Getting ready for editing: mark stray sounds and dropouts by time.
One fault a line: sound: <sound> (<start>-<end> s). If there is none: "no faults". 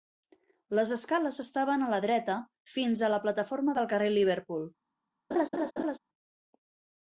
sound: laugh (5.3-6.0 s)